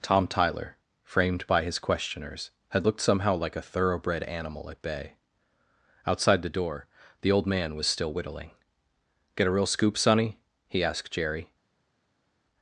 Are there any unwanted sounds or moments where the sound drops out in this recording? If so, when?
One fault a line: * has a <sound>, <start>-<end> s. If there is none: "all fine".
all fine